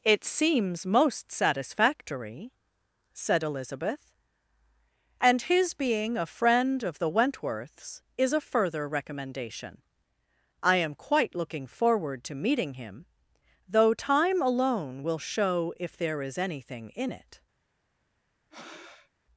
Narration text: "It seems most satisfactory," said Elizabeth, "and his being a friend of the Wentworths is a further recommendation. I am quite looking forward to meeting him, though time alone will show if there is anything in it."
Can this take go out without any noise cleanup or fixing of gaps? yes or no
no